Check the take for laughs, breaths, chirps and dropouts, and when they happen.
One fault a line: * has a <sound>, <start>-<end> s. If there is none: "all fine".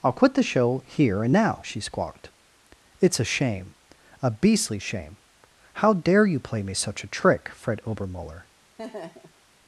* has a laugh, 8.8-9.4 s